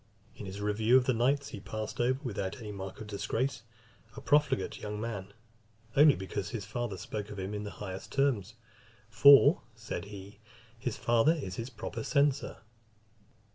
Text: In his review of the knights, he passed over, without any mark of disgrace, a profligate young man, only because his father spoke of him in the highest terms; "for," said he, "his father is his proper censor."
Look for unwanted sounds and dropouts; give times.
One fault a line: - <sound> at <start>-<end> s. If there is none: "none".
none